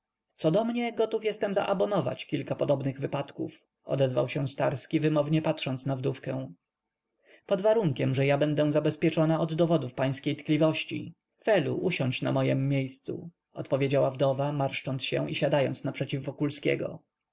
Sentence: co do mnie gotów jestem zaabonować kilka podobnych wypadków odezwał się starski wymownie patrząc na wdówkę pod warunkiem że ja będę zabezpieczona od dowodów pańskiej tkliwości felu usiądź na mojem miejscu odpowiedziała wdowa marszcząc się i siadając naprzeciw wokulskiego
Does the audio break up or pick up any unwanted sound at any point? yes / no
no